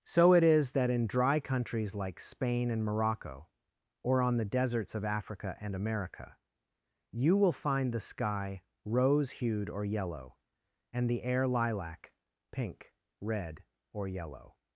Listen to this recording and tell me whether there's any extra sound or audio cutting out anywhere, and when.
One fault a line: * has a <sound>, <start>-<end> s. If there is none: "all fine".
all fine